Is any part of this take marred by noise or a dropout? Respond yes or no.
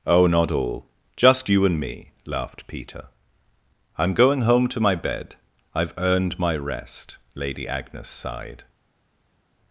no